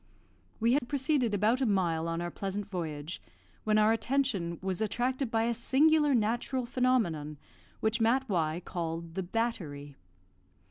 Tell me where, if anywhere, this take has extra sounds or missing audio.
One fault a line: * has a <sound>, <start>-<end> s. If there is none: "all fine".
* has a dropout, 0.8-0.8 s